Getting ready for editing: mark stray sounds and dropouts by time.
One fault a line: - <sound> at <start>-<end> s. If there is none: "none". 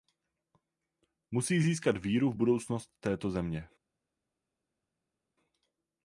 none